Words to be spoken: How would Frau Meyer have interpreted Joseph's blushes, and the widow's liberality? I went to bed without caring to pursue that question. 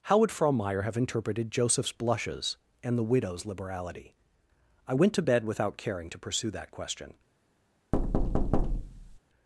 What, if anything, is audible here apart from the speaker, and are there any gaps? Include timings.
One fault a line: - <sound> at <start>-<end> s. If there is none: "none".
- thud at 7.9-9.2 s